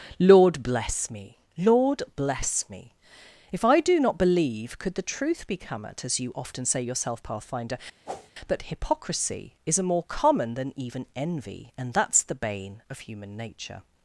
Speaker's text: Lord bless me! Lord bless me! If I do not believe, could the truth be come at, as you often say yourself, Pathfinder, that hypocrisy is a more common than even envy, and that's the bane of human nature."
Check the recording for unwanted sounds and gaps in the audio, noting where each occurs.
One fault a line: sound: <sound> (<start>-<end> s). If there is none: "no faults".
sound: whoosh (8.1-8.3 s)